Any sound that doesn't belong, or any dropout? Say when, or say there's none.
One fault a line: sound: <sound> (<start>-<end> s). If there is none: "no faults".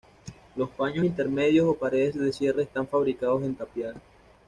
no faults